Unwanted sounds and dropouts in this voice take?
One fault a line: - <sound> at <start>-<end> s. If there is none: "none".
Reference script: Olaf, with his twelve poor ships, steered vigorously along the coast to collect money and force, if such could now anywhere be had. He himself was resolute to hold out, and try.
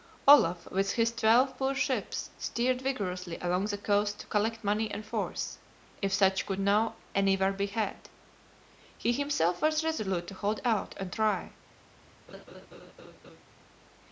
- laugh at 12.3-13.4 s